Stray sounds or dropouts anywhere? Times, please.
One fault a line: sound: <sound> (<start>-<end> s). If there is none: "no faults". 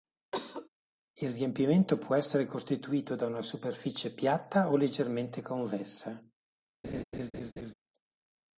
sound: cough (0.3-0.7 s)
sound: laugh (6.8-7.7 s)